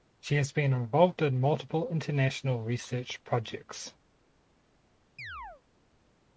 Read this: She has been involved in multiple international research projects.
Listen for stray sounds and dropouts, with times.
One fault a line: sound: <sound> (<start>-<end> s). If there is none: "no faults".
sound: chirp (5.2-5.6 s)